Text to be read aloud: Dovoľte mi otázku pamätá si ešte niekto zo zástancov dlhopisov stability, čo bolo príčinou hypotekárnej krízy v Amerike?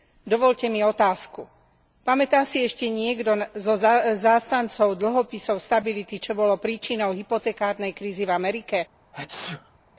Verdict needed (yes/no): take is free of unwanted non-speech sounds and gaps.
no